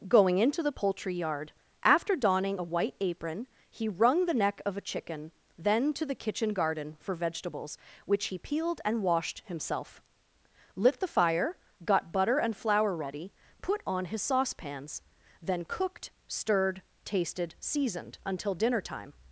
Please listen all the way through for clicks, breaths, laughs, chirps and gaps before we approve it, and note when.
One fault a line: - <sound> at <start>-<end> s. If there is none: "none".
none